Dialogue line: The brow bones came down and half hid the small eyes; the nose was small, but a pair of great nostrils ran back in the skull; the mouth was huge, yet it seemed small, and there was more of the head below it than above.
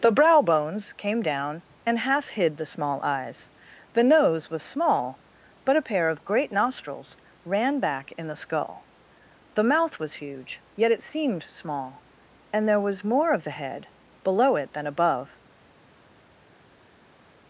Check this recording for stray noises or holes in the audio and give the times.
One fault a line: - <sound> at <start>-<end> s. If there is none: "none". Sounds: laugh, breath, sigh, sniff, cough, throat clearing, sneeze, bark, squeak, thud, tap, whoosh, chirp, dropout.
none